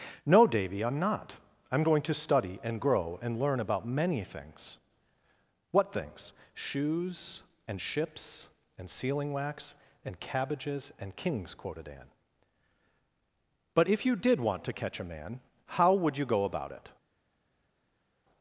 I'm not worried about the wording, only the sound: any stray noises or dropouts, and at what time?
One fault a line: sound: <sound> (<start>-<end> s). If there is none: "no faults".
no faults